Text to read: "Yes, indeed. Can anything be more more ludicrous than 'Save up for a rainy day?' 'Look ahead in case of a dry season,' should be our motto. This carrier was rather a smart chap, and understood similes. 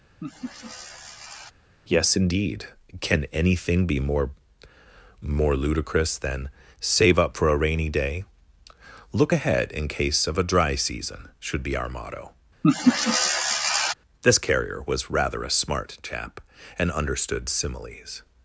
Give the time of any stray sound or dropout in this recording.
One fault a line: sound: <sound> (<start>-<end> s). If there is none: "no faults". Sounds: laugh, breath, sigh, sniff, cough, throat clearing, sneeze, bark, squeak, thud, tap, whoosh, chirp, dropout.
sound: laugh (0.2-1.5 s)
sound: laugh (12.6-13.9 s)